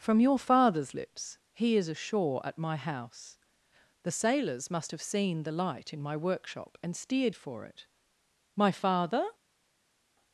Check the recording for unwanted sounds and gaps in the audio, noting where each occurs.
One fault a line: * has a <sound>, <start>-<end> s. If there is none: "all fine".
all fine